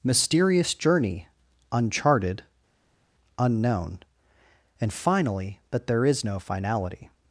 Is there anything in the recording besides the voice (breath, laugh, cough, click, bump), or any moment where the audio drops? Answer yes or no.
no